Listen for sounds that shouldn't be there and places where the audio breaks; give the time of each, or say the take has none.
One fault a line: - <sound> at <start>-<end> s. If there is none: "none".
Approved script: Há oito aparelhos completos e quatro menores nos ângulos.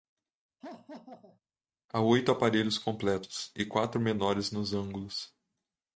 - laugh at 0.6-1.4 s